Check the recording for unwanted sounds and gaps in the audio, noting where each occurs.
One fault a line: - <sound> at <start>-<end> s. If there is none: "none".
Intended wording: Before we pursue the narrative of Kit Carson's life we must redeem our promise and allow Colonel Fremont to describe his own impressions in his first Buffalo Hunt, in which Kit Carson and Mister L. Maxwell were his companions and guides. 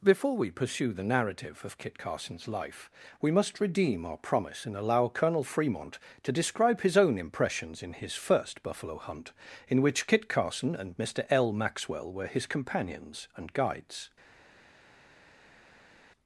none